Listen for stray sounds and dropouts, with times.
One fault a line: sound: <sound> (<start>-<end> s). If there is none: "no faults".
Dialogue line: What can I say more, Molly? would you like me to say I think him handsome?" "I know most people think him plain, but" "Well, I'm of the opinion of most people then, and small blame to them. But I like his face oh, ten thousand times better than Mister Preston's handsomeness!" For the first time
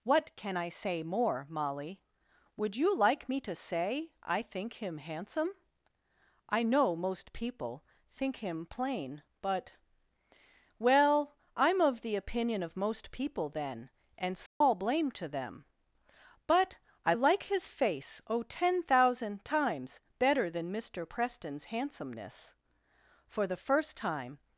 sound: dropout (14.5-14.6 s)